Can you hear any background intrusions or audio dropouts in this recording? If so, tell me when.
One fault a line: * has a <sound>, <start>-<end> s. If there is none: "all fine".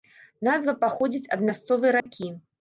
* has a dropout, 2.0-2.1 s